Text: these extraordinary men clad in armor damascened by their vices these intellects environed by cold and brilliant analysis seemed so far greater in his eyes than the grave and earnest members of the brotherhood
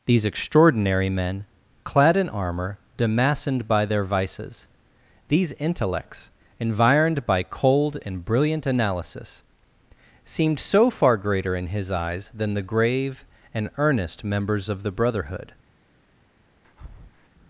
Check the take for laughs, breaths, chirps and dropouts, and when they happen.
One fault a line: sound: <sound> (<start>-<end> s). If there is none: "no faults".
sound: breath (16.6-17.3 s)